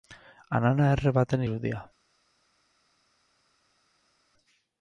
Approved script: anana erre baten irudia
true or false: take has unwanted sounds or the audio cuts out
false